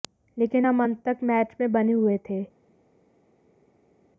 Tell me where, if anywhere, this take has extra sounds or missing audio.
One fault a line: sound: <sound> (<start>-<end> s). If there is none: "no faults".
no faults